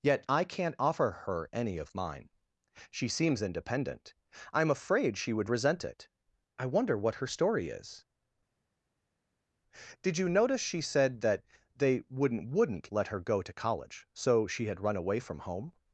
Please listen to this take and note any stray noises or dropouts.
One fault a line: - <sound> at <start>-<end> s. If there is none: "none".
none